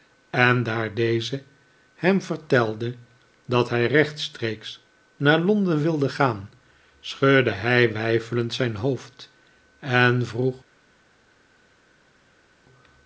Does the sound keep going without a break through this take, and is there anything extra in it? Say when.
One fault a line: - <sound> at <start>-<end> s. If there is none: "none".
none